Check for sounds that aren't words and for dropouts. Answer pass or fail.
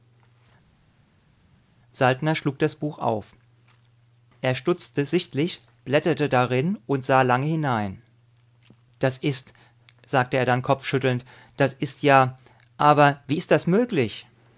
pass